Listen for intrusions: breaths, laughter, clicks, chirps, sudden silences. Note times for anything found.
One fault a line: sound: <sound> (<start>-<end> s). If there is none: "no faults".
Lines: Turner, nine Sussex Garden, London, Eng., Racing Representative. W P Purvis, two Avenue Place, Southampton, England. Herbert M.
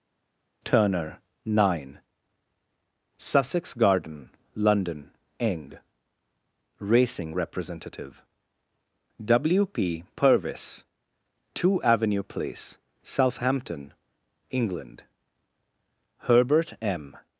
no faults